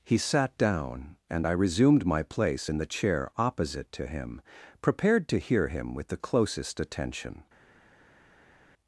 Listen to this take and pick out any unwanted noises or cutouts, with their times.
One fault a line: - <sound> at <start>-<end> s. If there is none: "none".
none